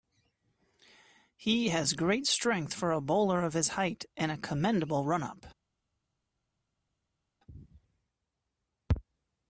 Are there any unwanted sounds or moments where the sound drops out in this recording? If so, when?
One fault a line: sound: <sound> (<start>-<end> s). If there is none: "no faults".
no faults